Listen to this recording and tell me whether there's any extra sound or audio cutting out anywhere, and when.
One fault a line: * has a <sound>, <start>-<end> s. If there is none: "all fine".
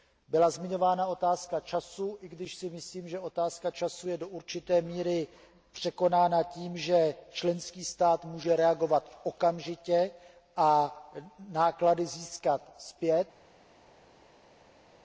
all fine